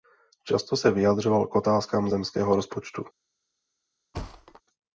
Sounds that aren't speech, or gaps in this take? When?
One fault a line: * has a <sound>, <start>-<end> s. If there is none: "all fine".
* has a thud, 4.1-4.6 s